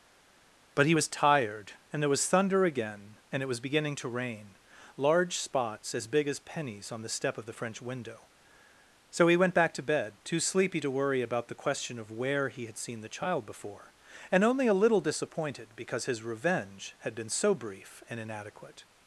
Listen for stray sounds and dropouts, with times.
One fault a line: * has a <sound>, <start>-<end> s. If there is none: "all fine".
all fine